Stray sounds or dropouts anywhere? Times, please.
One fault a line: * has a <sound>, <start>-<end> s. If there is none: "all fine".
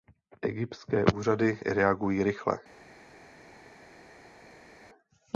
all fine